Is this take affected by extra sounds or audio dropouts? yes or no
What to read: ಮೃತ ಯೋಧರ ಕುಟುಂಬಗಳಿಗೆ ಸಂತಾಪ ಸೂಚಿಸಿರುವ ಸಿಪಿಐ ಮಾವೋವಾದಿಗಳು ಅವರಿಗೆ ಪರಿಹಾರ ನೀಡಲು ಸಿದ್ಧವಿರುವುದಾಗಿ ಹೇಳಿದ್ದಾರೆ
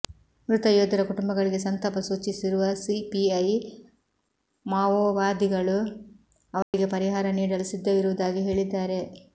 yes